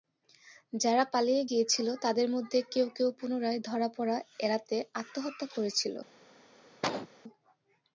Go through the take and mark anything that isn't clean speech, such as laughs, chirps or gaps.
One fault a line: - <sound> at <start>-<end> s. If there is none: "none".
- cough at 6.8-7.1 s